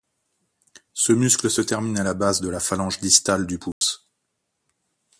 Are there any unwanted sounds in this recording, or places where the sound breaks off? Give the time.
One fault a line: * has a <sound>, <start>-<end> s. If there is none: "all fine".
* has a dropout, 3.7-3.8 s